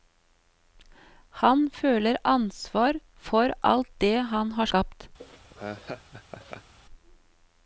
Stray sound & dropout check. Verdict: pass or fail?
fail